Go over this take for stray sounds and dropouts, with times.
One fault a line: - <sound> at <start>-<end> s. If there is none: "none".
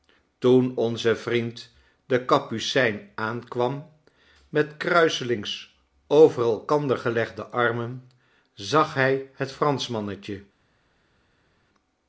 none